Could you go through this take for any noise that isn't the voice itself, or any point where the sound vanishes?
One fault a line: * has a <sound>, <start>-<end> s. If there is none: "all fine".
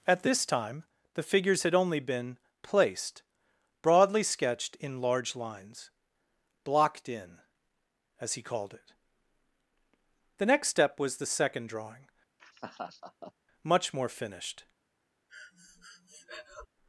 * has a laugh, 12.4-13.3 s
* has a breath, 15.3-16.7 s